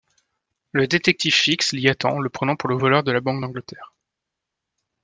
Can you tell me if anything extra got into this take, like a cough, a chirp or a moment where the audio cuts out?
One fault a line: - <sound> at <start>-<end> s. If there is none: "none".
none